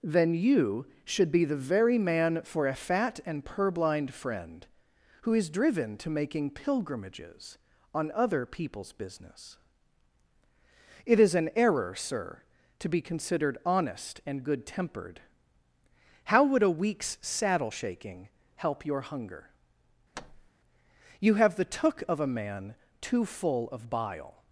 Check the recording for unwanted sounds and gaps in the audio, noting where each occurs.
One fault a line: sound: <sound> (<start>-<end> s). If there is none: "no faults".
sound: thud (20.1-20.5 s)